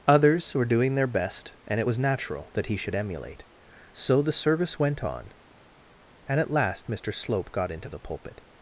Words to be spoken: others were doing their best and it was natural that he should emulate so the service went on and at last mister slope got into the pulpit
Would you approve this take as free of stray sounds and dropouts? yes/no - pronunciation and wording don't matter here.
yes